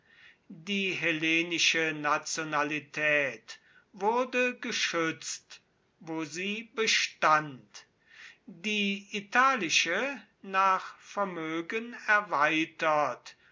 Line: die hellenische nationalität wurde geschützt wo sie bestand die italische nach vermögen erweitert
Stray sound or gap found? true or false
false